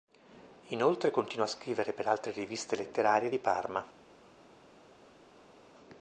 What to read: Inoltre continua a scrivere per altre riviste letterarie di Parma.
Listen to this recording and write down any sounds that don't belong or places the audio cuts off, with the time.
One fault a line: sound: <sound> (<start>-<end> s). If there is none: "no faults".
no faults